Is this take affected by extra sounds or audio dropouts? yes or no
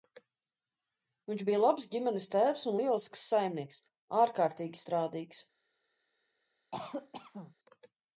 yes